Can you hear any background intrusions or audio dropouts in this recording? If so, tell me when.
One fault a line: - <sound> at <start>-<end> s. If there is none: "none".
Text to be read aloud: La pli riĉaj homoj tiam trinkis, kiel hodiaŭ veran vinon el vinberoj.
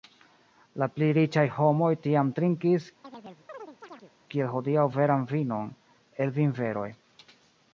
- chirp at 3.0-4.1 s